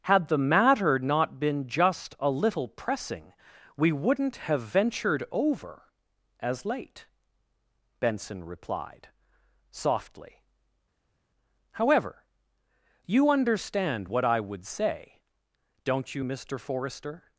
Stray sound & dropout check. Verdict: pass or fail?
pass